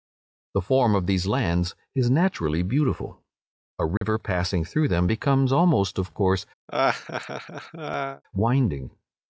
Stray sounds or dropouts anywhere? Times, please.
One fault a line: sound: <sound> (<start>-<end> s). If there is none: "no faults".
sound: dropout (4.0-4.0 s)
sound: laugh (6.7-8.2 s)